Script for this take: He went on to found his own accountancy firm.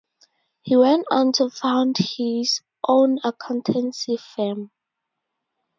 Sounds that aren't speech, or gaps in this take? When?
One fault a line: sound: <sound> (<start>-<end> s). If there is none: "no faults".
no faults